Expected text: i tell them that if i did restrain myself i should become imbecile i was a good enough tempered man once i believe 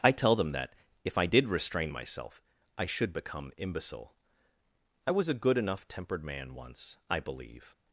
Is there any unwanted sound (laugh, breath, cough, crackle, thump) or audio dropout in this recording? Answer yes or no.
no